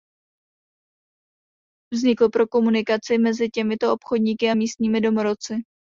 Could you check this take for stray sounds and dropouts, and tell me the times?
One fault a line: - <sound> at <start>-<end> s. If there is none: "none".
none